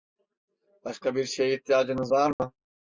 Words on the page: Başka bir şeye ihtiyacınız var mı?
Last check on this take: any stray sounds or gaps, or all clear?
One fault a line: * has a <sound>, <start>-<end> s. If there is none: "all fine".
* has a dropout, 2.3-2.4 s